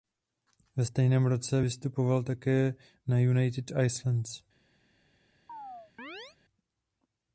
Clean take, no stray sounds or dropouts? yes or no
no